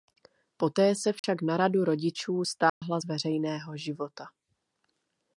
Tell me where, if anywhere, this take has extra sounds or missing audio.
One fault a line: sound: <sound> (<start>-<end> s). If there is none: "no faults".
sound: dropout (1.2-1.2 s)
sound: dropout (2.7-2.8 s)